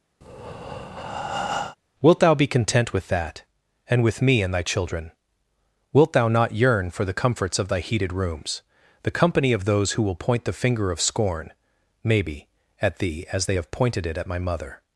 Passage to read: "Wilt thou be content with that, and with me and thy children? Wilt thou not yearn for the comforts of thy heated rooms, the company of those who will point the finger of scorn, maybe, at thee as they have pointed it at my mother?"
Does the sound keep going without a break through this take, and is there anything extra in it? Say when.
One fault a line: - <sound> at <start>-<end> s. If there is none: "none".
- breath at 0.2-1.8 s